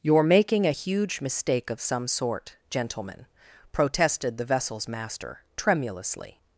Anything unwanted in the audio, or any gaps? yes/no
no